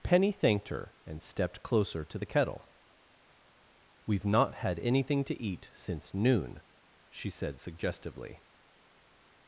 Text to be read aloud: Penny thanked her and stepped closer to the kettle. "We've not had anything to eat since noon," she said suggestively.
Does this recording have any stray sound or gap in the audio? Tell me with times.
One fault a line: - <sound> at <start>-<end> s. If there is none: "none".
none